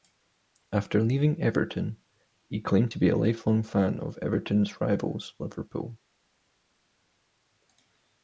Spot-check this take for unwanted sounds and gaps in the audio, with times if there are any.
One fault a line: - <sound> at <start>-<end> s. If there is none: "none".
none